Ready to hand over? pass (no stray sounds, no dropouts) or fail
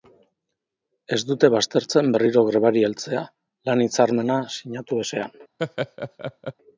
fail